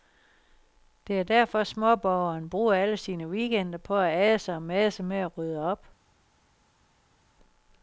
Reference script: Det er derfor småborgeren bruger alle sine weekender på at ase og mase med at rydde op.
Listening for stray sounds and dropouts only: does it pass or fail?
pass